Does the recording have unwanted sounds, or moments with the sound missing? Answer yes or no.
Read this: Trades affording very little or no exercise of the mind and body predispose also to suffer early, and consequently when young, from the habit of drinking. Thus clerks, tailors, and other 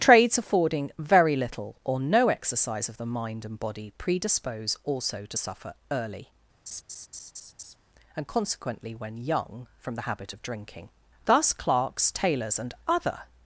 yes